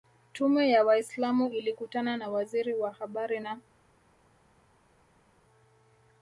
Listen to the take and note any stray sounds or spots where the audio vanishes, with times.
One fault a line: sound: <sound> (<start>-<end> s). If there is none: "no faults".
no faults